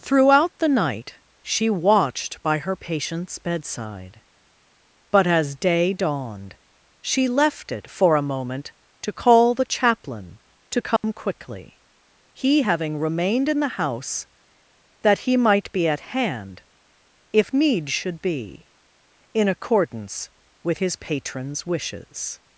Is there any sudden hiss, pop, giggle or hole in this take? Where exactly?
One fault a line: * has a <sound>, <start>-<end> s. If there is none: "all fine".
* has a dropout, 11.0-11.0 s